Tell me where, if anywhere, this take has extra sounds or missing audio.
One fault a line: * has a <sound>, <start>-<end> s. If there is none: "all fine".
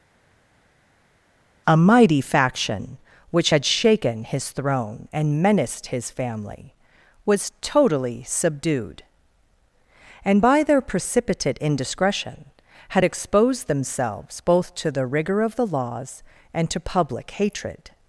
all fine